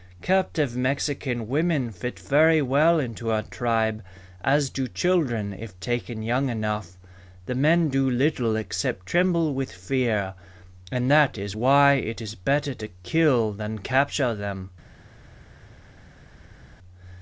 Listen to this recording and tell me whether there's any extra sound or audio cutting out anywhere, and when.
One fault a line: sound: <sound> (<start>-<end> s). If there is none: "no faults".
no faults